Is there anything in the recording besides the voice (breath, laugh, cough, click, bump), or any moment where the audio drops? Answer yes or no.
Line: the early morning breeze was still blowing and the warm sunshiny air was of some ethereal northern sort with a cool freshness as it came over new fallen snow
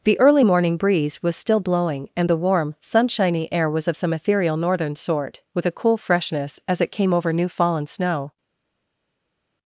no